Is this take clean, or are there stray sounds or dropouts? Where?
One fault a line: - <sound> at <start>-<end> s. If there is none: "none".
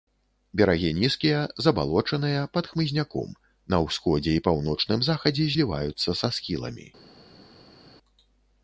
none